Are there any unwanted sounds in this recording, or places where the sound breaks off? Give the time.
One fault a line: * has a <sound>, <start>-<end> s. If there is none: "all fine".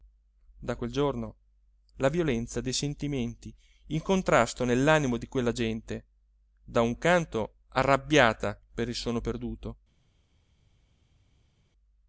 all fine